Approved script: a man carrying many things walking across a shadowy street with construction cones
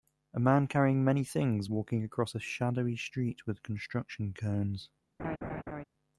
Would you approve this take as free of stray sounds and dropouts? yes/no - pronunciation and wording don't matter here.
no